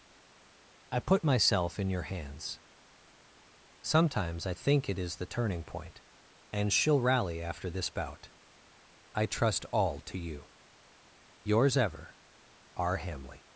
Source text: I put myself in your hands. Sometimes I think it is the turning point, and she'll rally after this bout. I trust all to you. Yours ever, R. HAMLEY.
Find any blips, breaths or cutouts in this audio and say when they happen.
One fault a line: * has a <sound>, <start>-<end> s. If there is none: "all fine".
all fine